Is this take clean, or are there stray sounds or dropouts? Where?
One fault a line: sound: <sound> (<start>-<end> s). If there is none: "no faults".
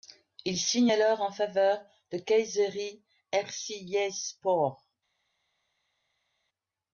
no faults